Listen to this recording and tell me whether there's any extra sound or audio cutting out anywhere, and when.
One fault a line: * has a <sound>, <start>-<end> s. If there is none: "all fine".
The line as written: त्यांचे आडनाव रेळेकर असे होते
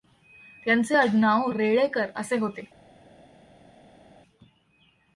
all fine